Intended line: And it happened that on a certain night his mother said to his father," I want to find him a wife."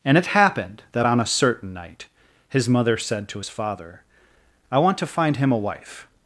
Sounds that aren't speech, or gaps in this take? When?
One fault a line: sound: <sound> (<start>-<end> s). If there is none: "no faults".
no faults